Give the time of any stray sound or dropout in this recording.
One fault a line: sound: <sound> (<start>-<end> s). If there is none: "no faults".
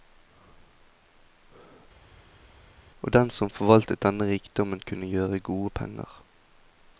no faults